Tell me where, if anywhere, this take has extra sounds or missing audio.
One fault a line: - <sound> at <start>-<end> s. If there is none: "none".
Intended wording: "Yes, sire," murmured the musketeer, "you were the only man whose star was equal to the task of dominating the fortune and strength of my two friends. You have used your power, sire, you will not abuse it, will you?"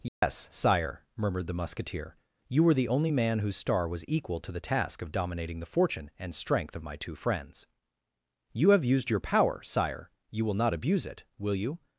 - dropout at 0.1-0.2 s